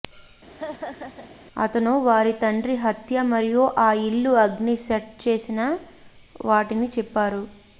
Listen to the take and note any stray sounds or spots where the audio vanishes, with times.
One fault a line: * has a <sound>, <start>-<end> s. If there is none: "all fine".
* has a laugh, 0.5-1.4 s